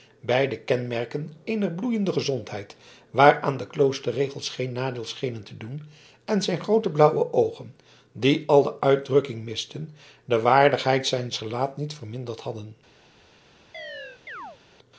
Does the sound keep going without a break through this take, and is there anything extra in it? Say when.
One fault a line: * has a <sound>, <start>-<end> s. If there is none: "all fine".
* has a chirp, 13.7-14.6 s